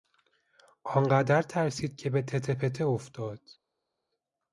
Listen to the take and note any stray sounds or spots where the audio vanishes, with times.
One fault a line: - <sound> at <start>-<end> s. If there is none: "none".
none